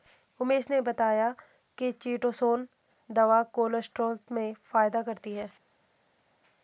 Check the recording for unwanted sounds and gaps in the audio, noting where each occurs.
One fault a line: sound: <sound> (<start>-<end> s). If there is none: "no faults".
no faults